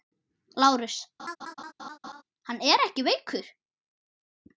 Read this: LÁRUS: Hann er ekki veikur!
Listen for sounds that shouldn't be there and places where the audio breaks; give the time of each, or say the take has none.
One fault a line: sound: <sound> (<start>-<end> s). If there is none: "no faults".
sound: laugh (1.2-2.2 s)